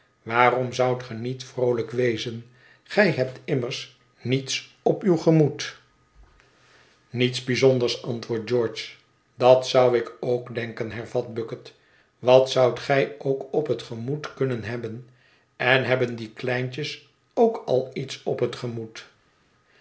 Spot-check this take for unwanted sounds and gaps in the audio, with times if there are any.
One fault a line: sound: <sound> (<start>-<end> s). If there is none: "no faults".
no faults